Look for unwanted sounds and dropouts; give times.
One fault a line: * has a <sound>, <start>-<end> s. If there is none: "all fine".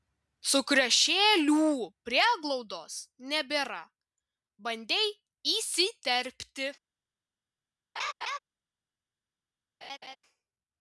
* has a laugh, 8.0-8.4 s
* has a laugh, 9.8-10.2 s